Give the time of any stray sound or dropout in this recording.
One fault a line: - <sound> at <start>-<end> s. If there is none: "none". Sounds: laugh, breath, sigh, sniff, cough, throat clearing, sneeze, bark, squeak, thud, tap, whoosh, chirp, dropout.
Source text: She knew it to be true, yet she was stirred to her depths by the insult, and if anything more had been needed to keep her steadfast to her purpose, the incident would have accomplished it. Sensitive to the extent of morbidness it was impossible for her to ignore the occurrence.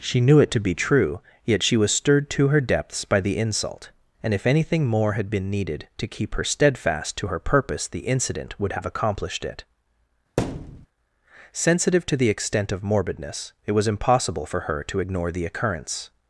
- thud at 10.4-10.9 s